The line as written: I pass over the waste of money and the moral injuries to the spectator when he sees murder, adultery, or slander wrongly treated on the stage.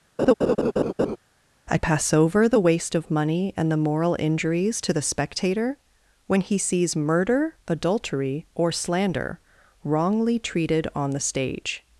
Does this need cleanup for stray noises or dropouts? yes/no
yes